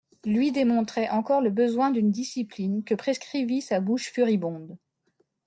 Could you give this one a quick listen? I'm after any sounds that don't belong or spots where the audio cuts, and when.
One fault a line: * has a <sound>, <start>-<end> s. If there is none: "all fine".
all fine